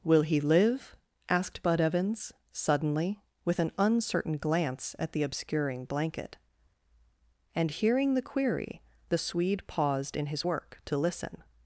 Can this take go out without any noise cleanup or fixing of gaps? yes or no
yes